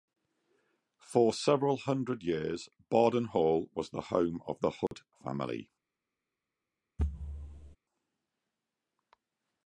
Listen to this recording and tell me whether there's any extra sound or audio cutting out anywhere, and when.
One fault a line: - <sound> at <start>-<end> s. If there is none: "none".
- dropout at 4.9-4.9 s
- thud at 7.0-7.8 s